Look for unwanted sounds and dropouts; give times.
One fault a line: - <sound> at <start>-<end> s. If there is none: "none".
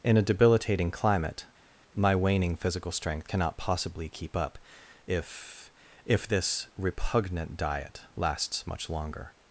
none